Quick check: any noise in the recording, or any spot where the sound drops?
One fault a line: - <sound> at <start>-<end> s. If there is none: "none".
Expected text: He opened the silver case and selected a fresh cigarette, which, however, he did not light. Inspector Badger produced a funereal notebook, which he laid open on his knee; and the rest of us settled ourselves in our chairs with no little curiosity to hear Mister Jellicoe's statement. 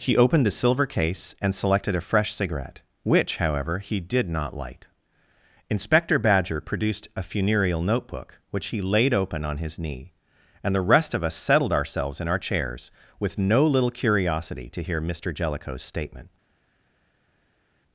none